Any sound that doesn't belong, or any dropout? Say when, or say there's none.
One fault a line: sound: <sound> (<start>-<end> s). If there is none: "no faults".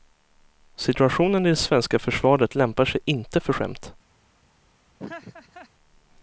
sound: laugh (5.0-5.7 s)